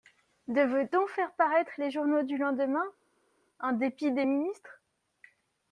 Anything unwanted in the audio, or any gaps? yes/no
no